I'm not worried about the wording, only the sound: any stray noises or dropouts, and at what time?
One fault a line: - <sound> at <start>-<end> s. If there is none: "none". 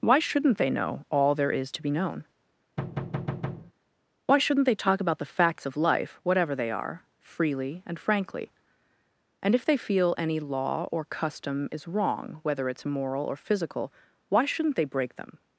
- thud at 2.8-3.7 s